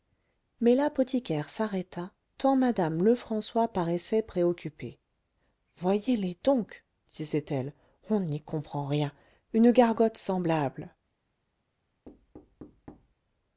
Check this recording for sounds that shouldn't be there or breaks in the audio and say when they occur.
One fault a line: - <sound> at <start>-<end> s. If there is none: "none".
- thud at 12.0-13.1 s